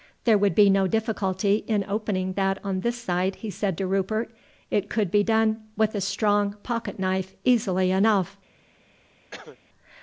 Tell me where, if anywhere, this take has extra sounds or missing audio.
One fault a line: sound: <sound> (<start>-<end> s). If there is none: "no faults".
sound: cough (9.3-9.6 s)